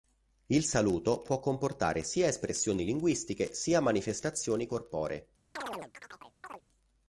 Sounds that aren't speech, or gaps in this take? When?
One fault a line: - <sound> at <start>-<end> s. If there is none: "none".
- chirp at 5.6-6.6 s